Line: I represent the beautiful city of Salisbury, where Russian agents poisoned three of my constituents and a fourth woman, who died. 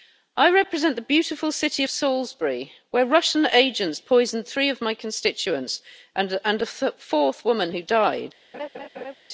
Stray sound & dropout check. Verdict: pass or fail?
fail